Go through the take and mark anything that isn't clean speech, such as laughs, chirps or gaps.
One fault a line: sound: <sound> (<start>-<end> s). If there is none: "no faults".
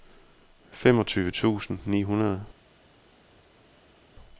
no faults